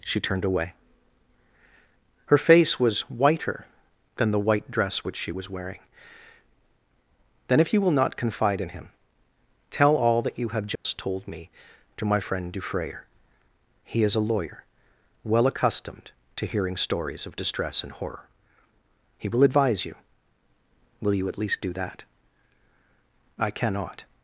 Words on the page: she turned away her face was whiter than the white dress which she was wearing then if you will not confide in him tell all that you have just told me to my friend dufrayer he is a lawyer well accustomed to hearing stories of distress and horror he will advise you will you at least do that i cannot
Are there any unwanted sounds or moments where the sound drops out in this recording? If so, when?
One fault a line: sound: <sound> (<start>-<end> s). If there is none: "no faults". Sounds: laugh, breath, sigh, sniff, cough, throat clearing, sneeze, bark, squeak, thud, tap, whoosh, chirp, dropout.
sound: dropout (10.8-10.9 s)